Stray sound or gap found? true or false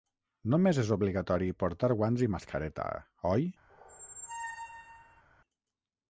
true